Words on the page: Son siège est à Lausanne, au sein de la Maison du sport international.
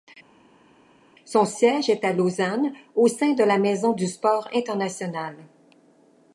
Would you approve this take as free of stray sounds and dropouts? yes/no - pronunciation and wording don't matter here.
yes